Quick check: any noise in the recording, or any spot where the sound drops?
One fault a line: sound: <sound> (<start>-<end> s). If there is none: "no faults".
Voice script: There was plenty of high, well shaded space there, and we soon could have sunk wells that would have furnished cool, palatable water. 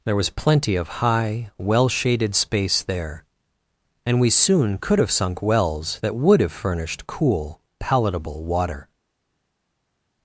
no faults